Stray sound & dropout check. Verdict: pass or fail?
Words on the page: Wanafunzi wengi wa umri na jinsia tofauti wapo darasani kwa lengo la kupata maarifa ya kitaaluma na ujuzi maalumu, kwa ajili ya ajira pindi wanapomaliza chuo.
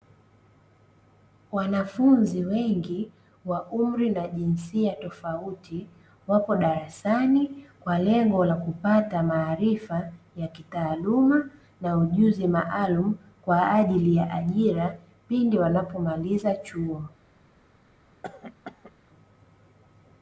fail